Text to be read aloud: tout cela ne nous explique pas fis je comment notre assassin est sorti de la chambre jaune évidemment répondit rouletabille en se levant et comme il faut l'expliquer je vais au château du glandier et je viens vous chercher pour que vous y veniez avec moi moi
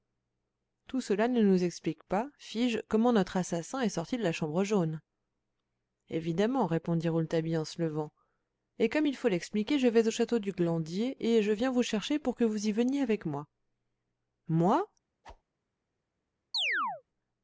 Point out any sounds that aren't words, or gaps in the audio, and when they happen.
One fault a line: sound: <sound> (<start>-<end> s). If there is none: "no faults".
sound: whoosh (15.2-15.4 s)
sound: chirp (16.5-17.0 s)